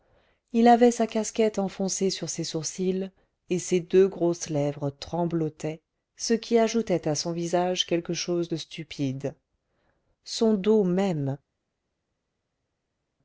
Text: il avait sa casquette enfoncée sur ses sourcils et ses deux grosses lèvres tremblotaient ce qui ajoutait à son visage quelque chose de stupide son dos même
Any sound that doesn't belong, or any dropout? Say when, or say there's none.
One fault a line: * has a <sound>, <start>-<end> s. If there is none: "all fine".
all fine